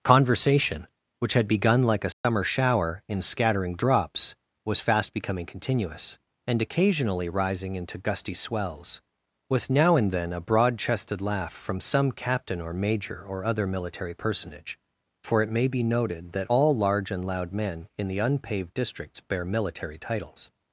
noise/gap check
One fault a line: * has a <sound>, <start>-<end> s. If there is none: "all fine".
* has a dropout, 2.1-2.2 s